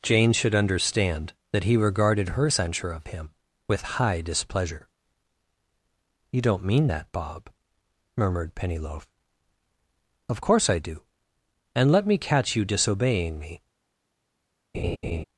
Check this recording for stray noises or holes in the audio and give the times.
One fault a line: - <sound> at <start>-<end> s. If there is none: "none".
- laugh at 14.7-15.2 s